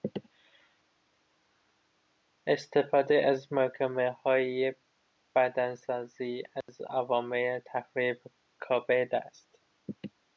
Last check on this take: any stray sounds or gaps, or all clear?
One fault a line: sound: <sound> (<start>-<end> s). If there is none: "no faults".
sound: dropout (6.6-6.7 s)